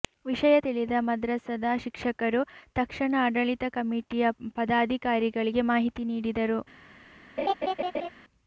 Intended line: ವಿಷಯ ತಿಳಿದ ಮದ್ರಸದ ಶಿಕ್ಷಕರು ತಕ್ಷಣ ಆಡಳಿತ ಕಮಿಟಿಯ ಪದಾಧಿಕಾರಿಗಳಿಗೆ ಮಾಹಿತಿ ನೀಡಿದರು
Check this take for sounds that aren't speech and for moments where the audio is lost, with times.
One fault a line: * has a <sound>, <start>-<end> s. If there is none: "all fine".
* has a laugh, 7.4-8.1 s